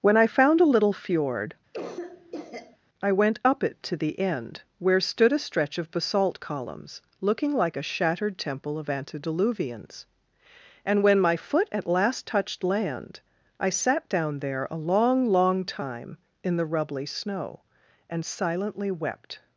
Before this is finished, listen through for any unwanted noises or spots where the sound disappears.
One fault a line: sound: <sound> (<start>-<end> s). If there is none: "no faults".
sound: cough (1.7-2.8 s)